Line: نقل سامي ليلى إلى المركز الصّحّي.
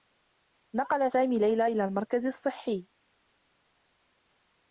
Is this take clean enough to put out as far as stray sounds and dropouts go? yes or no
yes